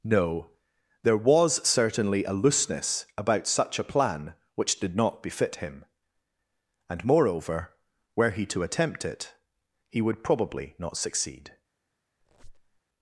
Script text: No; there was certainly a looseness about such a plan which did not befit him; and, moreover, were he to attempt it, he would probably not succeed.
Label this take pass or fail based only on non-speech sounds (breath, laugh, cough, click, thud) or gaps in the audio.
fail